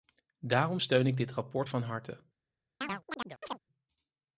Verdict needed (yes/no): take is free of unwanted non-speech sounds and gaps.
no